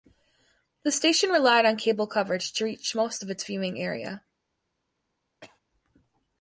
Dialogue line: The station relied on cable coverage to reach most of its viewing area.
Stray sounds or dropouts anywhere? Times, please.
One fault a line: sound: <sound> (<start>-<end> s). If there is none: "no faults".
sound: cough (5.4-5.6 s)